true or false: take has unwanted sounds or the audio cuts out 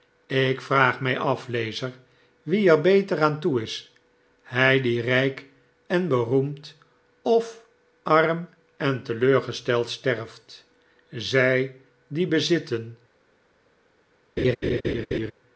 true